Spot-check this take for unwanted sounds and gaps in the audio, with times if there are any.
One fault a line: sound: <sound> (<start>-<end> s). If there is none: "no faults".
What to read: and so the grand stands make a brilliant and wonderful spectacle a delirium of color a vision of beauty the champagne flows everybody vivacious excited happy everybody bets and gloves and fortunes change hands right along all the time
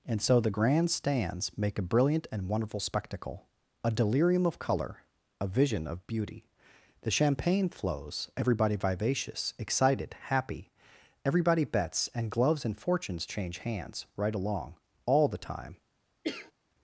sound: cough (16.2-16.5 s)